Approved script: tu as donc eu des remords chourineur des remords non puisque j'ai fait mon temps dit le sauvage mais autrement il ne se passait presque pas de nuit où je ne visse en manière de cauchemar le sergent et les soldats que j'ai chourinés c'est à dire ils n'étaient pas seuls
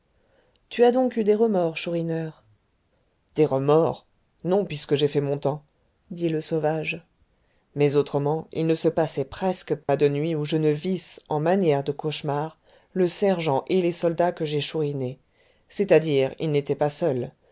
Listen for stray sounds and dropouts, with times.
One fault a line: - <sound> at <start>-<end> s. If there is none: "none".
- dropout at 9.8-9.9 s